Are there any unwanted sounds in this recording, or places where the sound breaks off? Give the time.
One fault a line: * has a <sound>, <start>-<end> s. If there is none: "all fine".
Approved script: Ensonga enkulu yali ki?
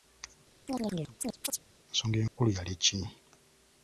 * has a chirp, 0.7-1.6 s
* has a dropout, 2.3-2.4 s